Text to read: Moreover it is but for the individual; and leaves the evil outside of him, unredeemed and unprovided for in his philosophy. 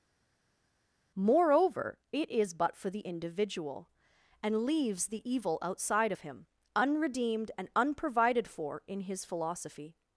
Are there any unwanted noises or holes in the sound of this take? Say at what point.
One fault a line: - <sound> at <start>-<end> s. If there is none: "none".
none